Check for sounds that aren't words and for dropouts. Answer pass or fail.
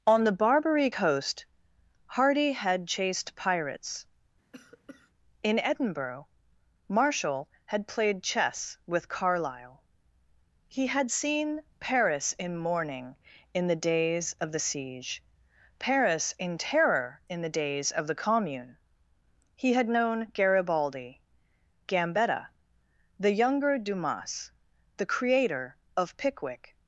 fail